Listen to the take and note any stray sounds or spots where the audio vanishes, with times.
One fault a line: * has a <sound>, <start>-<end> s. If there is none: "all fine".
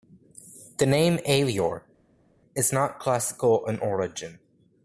all fine